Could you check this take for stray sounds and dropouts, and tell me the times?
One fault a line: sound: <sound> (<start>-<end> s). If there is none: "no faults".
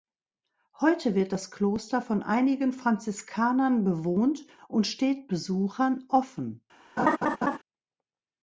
sound: laugh (7.0-7.6 s)